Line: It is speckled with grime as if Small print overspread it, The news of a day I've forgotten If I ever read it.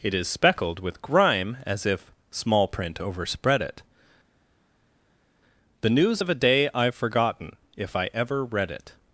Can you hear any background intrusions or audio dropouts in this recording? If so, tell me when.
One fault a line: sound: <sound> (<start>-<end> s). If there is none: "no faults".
no faults